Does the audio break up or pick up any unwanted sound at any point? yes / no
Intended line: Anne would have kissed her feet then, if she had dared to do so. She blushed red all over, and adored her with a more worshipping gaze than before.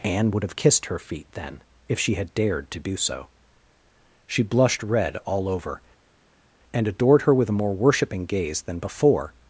no